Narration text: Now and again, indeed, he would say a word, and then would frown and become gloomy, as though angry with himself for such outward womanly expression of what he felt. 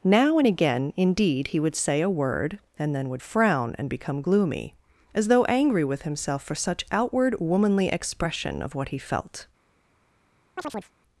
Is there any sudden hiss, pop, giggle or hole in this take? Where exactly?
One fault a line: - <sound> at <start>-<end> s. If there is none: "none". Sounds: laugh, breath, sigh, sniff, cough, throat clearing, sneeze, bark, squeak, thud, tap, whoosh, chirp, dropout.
- chirp at 10.6-10.9 s